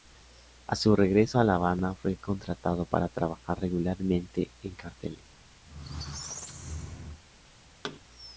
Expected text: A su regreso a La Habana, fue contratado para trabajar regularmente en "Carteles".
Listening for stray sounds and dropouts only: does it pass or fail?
fail